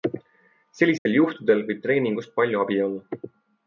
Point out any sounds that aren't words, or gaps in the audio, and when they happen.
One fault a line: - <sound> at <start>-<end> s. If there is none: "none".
- dropout at 1.0-1.1 s